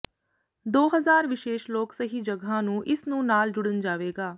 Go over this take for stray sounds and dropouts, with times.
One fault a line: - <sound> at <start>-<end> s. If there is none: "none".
none